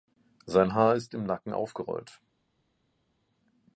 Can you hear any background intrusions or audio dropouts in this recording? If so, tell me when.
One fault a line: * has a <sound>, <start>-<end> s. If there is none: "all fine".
all fine